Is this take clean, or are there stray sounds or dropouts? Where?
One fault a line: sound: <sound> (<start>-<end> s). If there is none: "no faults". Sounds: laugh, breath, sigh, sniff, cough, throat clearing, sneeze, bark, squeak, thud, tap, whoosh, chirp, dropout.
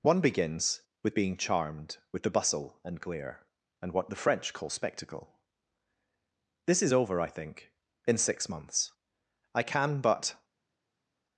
no faults